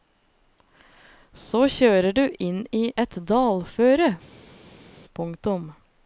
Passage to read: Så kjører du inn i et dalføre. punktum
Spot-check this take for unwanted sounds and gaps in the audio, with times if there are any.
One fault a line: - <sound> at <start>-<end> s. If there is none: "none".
none